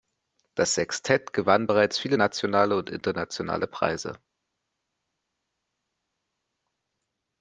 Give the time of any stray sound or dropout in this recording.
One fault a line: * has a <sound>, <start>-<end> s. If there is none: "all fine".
all fine